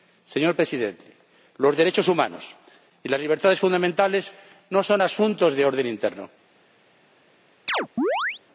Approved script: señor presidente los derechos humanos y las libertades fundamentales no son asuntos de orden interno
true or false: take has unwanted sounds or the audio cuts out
true